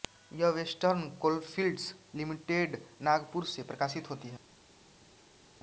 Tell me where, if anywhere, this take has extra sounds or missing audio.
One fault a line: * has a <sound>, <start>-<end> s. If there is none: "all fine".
all fine